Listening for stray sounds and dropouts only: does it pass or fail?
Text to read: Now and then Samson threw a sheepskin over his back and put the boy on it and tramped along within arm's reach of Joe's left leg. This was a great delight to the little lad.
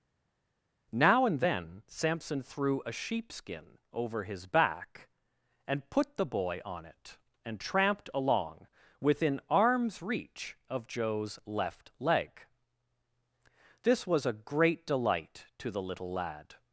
pass